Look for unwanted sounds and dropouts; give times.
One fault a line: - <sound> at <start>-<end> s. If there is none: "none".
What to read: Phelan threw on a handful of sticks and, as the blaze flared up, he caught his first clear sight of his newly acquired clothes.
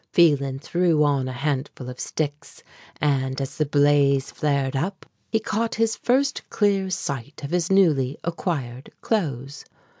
none